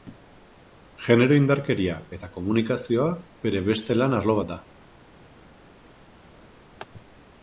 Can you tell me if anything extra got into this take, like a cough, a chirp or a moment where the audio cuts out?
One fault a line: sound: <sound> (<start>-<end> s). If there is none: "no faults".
no faults